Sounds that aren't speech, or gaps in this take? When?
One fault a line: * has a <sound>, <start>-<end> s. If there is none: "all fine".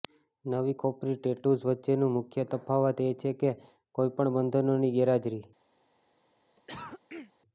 * has a cough, 6.6-7.3 s